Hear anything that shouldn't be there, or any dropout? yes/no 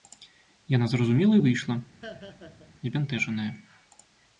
yes